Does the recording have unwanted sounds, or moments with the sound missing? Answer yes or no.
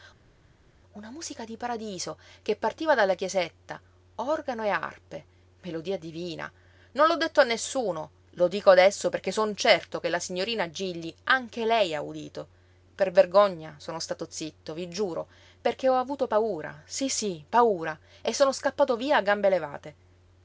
no